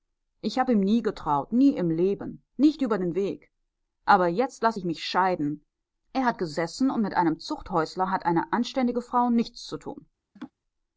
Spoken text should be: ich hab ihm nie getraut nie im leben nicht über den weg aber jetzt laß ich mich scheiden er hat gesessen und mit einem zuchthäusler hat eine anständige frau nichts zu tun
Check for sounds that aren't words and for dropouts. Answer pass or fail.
fail